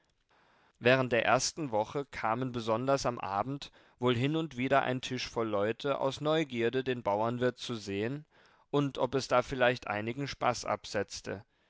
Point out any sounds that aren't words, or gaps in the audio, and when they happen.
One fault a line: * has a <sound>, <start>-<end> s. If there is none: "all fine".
all fine